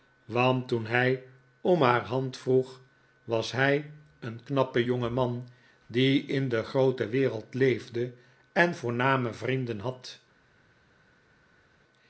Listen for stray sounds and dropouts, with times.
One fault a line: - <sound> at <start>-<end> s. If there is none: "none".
none